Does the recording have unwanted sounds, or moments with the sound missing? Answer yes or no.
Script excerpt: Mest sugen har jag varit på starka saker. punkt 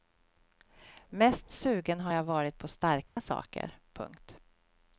yes